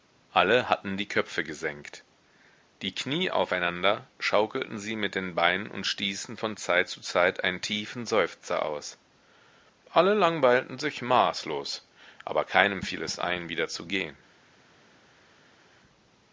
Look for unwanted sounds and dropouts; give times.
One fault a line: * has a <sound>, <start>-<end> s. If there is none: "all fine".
all fine